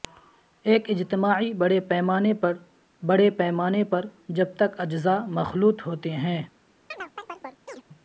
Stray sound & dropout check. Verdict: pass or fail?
fail